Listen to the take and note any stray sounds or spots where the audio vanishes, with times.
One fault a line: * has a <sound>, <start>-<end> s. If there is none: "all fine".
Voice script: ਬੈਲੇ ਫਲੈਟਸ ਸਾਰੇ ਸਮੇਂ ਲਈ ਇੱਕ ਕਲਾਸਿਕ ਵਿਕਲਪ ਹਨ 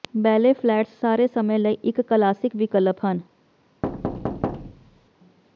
* has a thud, 3.8-5.1 s